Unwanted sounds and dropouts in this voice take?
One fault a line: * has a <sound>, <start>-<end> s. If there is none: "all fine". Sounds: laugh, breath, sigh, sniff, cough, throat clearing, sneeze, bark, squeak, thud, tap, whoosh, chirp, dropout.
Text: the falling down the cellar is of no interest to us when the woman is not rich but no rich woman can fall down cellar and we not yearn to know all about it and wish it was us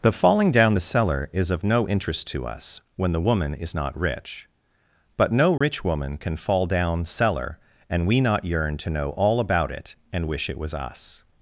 * has a dropout, 5.6-5.6 s